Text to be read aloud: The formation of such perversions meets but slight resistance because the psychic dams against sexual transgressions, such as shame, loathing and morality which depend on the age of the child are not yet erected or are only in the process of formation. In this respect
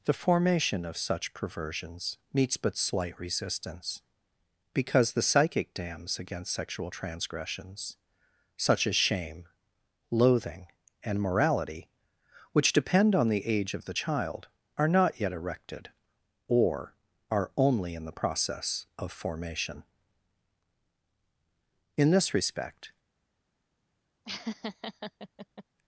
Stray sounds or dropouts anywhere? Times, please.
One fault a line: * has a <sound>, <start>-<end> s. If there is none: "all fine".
* has a laugh, 24.2-25.6 s